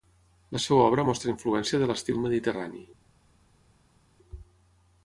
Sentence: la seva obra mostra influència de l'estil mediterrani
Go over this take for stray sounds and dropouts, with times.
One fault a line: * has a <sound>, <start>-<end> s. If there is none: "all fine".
all fine